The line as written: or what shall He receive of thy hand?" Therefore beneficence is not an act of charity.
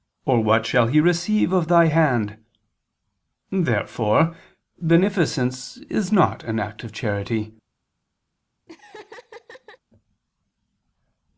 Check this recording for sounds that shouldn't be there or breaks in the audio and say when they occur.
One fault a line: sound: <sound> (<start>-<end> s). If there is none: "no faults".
sound: laugh (8.7-9.8 s)